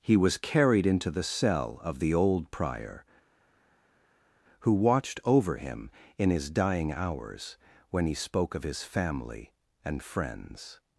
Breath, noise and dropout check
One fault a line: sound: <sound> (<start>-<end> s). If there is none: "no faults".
no faults